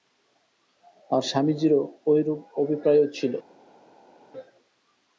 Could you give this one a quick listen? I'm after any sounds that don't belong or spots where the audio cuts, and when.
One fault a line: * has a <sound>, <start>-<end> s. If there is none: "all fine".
all fine